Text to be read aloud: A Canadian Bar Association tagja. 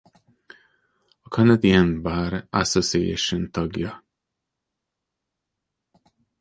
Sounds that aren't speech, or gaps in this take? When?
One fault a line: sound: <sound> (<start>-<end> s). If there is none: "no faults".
no faults